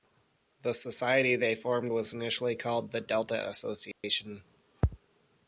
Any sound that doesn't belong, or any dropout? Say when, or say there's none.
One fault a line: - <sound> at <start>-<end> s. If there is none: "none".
- dropout at 3.9-4.0 s